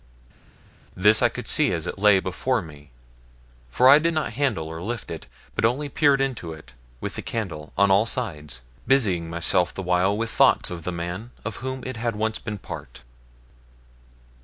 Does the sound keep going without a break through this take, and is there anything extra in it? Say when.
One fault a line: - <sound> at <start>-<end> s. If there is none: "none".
none